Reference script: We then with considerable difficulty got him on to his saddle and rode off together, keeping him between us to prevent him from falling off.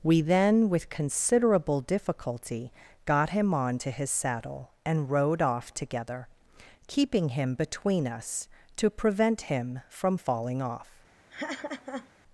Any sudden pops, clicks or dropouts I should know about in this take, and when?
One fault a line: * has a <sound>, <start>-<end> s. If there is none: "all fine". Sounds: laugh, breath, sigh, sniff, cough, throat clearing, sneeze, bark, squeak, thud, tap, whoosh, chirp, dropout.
* has a laugh, 11.3-12.1 s